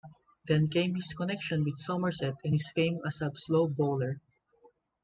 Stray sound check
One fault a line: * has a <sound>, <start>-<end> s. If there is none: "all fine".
all fine